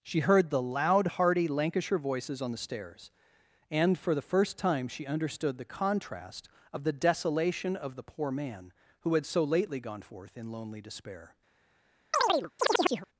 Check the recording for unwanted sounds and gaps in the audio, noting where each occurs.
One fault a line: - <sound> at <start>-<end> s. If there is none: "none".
- chirp at 12.1-13.1 s